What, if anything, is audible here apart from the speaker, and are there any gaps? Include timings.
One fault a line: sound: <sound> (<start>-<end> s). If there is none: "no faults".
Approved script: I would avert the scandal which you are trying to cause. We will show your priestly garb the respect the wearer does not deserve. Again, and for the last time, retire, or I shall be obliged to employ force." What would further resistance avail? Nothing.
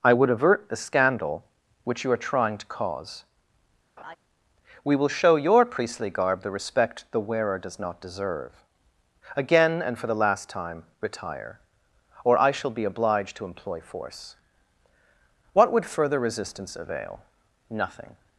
sound: laugh (4.0-4.2 s)